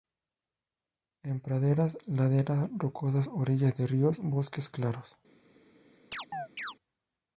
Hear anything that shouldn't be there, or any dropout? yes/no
yes